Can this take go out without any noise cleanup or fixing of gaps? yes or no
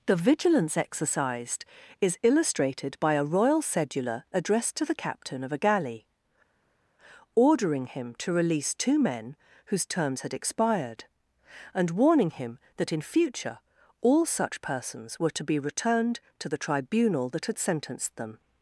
yes